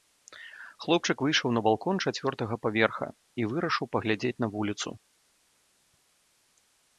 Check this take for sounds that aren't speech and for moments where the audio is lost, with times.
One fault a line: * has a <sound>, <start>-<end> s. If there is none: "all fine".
all fine